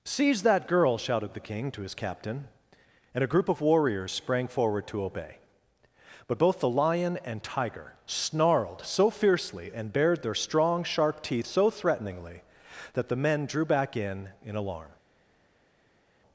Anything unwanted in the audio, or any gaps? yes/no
no